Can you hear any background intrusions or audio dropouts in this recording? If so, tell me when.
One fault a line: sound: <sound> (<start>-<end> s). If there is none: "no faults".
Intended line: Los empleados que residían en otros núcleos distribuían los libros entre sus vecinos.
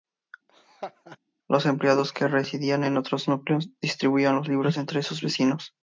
sound: laugh (0.5-1.2 s)